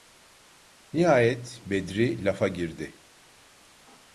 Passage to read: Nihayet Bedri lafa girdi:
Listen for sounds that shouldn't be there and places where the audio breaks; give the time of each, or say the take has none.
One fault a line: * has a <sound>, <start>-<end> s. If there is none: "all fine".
all fine